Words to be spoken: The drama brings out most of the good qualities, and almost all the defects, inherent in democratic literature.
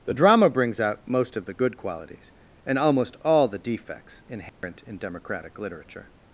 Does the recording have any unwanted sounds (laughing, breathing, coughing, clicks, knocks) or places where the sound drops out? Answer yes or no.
yes